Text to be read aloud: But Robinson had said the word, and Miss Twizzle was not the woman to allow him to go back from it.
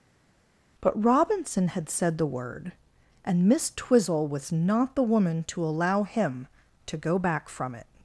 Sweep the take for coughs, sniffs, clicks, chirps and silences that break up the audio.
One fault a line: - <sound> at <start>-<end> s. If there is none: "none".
none